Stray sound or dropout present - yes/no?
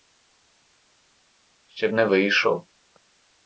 no